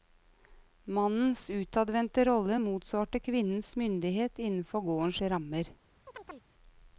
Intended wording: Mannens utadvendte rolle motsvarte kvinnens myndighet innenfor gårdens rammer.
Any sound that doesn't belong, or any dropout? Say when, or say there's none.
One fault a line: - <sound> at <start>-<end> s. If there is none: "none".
- chirp at 6.1-6.5 s